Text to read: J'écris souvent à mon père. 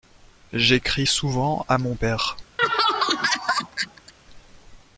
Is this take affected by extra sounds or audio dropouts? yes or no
yes